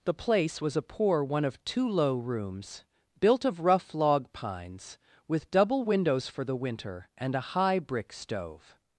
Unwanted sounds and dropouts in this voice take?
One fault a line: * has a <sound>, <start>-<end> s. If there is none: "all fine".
all fine